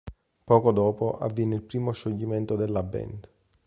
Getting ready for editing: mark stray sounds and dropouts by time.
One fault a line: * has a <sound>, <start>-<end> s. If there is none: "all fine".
all fine